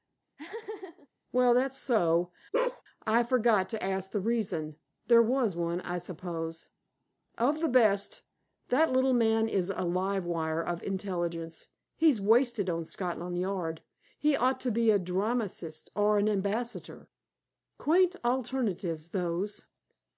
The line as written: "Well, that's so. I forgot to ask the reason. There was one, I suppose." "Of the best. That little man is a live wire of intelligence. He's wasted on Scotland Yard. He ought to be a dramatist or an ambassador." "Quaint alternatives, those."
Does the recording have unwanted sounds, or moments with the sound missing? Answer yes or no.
yes